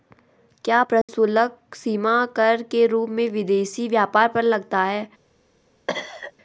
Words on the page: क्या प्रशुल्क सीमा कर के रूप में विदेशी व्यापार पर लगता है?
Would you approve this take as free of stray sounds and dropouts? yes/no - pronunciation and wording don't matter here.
no